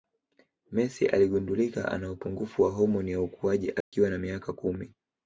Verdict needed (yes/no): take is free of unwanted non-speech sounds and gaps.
no